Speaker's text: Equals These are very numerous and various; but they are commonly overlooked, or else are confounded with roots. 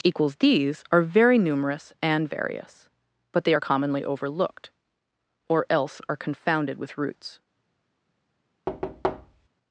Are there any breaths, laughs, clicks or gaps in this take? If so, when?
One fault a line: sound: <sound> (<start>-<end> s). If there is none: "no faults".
sound: thud (8.7-9.5 s)